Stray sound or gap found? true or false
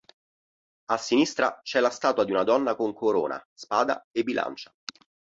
false